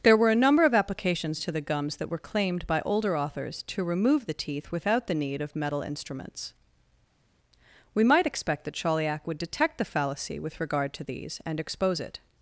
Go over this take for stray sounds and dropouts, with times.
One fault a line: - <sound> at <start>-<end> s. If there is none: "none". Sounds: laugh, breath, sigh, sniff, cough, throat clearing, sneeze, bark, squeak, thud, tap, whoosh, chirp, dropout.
none